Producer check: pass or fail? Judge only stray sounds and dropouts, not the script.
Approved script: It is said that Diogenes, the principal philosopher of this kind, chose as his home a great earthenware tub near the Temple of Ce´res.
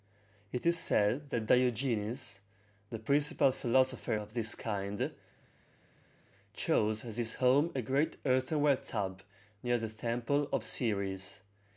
pass